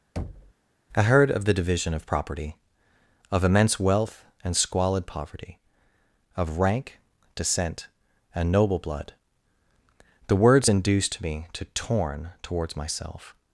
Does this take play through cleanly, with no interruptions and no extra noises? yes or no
no